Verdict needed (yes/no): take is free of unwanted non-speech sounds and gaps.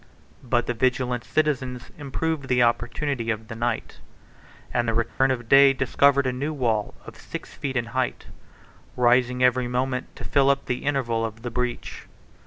no